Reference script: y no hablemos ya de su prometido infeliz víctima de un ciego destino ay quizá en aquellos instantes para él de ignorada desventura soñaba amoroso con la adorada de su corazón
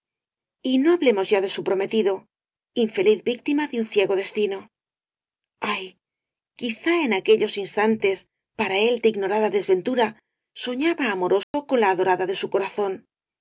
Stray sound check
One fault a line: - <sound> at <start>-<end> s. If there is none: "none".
- dropout at 11.4-11.5 s